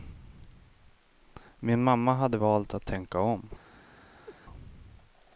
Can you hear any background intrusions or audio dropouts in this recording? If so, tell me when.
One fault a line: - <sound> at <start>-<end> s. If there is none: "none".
- laugh at 4.3-4.4 s